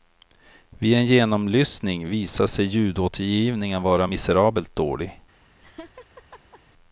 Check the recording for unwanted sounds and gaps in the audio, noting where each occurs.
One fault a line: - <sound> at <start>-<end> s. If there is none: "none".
- laugh at 5.6-6.6 s